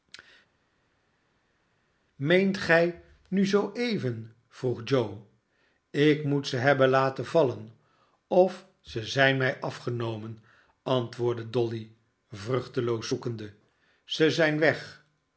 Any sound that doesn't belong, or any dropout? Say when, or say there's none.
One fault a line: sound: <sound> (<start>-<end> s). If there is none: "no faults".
no faults